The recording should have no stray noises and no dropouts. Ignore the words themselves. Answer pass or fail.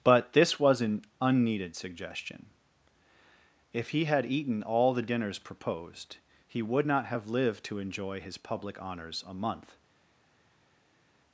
pass